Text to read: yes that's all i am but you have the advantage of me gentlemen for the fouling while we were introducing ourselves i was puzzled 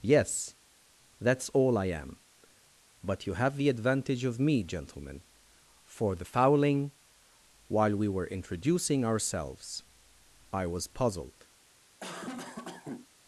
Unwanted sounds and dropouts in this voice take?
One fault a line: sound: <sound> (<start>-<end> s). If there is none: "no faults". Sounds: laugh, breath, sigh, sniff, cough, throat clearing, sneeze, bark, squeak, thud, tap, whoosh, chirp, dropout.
sound: cough (12.0-13.1 s)